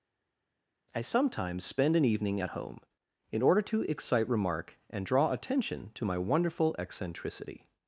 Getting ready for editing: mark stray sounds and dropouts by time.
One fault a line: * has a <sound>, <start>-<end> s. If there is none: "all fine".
all fine